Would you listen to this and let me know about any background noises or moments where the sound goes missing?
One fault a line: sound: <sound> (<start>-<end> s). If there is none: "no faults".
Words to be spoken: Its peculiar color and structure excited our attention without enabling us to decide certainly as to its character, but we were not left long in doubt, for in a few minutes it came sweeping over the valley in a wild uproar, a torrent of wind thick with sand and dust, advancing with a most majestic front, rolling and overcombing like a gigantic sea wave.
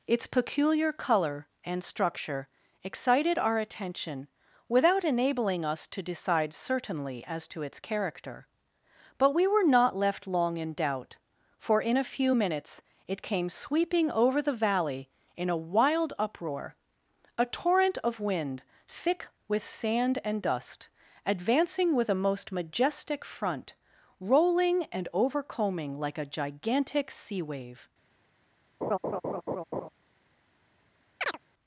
sound: laugh (28.8-29.9 s)
sound: chirp (31.2-31.4 s)